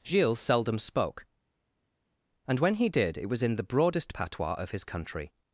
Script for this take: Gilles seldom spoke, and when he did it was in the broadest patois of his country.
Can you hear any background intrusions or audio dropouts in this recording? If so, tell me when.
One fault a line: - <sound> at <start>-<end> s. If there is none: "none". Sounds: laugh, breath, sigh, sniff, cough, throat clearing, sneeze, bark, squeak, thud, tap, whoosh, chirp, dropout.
none